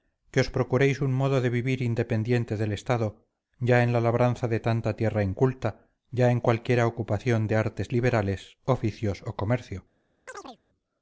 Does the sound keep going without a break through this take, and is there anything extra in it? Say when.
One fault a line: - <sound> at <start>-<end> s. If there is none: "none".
- chirp at 10.3-10.6 s